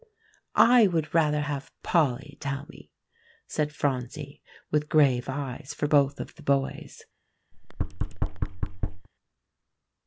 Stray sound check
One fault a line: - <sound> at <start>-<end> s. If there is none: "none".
- thud at 7.5-9.1 s